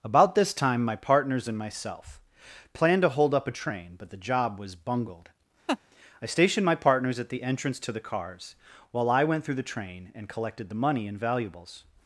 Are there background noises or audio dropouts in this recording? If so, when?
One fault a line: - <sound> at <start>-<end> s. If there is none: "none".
- laugh at 5.7-5.8 s